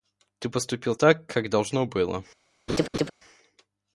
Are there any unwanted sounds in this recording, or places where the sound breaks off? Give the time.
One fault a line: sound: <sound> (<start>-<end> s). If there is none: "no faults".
sound: laugh (2.7-3.1 s)